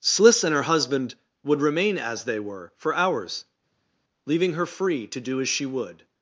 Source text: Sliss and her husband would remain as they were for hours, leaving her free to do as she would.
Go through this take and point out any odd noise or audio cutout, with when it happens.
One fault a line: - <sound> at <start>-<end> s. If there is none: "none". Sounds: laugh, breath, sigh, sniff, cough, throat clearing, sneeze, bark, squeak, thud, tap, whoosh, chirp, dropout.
none